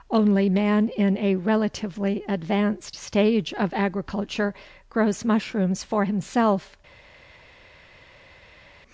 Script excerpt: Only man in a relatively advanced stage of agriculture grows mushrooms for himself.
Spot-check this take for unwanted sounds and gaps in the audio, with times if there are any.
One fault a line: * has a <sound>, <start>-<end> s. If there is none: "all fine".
all fine